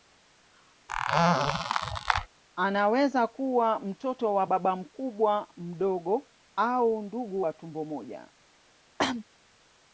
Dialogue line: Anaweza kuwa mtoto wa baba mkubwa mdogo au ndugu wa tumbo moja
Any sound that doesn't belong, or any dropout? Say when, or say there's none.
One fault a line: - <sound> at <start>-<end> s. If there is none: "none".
- squeak at 0.9-2.3 s
- cough at 9.0-9.2 s